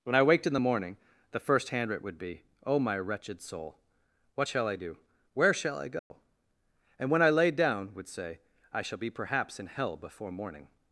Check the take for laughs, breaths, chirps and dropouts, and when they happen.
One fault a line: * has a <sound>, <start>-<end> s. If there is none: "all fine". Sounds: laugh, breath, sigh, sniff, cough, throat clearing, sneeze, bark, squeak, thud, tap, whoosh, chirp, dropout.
* has a dropout, 6.0-6.1 s